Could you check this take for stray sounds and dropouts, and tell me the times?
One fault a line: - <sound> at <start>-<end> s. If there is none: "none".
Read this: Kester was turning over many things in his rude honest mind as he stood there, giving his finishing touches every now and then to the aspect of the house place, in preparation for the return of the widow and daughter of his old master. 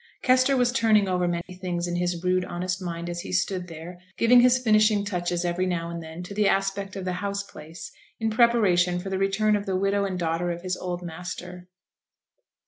- dropout at 1.4-1.5 s